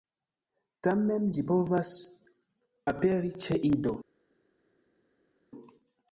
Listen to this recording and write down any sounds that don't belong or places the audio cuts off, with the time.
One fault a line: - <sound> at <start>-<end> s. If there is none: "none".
none